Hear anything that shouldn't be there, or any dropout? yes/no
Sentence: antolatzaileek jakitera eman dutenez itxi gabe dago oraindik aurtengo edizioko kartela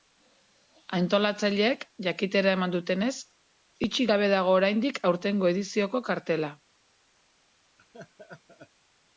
yes